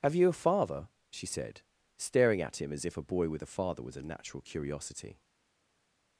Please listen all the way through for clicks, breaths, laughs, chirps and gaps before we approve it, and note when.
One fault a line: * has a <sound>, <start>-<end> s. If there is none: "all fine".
all fine